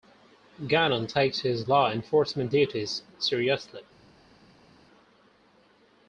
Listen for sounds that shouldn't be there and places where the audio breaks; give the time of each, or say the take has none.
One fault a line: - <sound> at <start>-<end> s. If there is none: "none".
none